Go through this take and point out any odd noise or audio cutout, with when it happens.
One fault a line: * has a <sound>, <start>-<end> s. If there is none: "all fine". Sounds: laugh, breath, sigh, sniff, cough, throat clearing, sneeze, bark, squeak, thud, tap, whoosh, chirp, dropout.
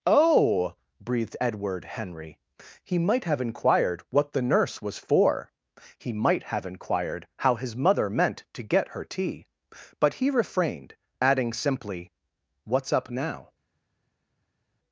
all fine